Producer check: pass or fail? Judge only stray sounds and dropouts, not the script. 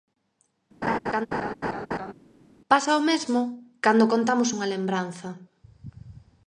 fail